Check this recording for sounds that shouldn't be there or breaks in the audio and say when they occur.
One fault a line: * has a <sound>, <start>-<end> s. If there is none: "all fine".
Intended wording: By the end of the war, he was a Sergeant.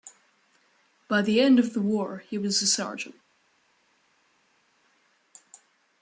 all fine